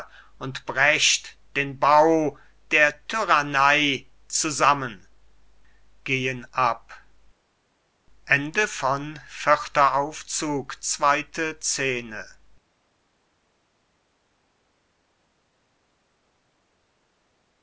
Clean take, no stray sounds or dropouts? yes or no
yes